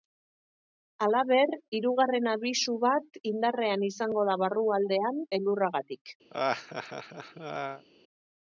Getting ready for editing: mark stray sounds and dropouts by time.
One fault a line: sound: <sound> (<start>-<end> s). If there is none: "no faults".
sound: laugh (6.3-7.8 s)